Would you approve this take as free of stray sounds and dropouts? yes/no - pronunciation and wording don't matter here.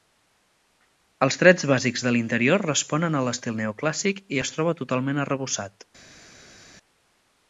yes